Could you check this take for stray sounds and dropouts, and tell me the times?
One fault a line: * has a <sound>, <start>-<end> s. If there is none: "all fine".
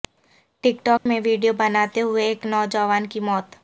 * has a dropout, 1.0-1.1 s